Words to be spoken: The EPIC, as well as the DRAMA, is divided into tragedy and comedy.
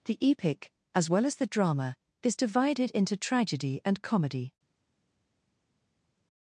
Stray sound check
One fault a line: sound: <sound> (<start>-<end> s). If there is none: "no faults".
no faults